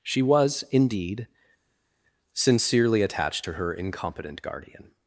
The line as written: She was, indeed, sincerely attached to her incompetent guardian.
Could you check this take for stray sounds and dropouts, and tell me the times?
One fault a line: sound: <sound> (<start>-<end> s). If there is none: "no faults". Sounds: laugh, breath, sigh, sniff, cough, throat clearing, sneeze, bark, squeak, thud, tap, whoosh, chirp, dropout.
no faults